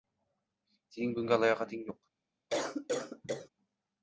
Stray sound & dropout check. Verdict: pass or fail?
fail